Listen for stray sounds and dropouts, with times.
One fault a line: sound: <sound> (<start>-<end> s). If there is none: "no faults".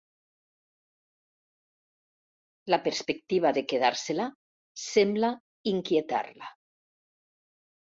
no faults